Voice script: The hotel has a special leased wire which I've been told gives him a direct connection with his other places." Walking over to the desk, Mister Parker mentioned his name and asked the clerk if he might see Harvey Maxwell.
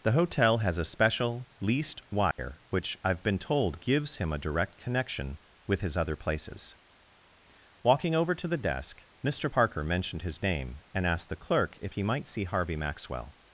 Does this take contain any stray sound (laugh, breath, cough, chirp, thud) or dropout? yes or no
yes